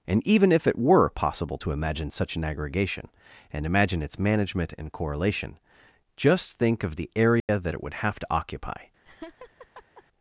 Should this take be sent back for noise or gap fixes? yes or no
yes